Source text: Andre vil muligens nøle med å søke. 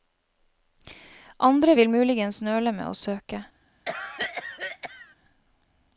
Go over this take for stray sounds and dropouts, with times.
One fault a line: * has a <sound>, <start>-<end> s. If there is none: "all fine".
* has a cough, 3.9-5.2 s